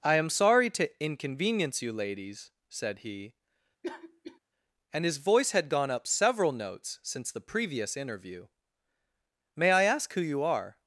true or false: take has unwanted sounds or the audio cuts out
true